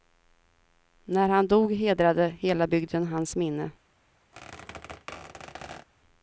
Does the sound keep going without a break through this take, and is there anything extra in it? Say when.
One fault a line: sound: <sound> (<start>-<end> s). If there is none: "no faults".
sound: squeak (4.3-5.9 s)